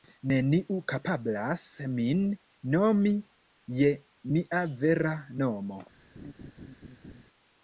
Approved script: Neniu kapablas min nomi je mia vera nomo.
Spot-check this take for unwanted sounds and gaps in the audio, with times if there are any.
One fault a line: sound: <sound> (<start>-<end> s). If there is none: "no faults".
sound: laugh (6.1-7.2 s)